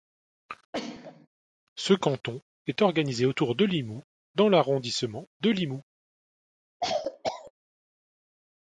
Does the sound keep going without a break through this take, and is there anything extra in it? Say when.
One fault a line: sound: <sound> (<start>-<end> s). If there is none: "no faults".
sound: sneeze (0.7-1.3 s)
sound: cough (6.8-7.5 s)